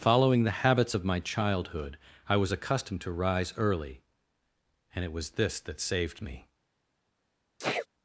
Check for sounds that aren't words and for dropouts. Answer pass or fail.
fail